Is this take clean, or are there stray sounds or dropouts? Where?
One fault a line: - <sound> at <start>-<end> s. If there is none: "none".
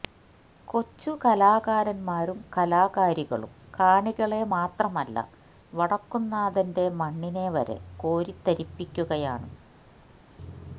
none